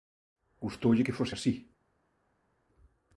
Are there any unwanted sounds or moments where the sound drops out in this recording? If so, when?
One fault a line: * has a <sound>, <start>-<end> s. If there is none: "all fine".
all fine